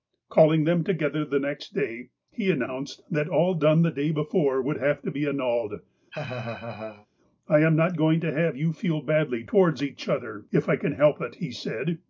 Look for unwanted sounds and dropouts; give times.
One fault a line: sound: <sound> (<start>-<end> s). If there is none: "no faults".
sound: laugh (6.1-7.1 s)